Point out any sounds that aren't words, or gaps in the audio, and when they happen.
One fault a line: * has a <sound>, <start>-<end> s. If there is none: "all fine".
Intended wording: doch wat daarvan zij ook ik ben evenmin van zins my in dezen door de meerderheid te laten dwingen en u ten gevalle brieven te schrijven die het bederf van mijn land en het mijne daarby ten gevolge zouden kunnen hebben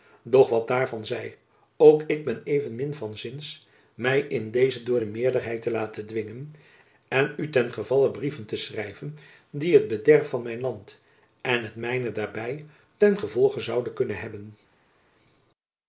all fine